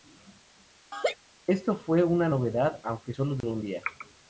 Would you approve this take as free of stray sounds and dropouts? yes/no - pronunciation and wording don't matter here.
no